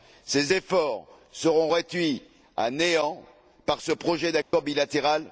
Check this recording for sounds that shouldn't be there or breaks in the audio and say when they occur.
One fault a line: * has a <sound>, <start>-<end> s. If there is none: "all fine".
* has a dropout, 4.4-4.5 s